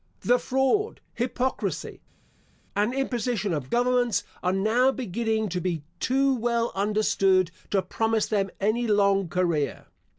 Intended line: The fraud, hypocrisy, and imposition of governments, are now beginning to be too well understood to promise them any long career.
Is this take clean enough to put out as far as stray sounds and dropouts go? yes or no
yes